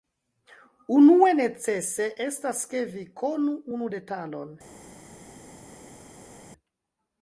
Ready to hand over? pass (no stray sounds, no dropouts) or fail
pass